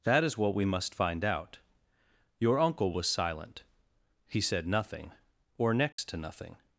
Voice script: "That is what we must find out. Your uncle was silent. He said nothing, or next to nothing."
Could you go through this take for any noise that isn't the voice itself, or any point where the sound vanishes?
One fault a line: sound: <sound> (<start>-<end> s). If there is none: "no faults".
sound: dropout (5.9-6.0 s)